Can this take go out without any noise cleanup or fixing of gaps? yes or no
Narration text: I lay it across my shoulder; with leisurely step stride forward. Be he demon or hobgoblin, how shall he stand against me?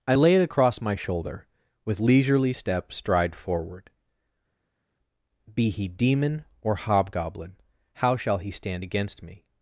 yes